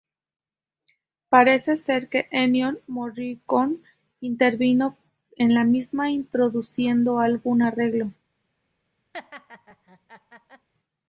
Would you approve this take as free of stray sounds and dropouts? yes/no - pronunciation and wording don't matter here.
no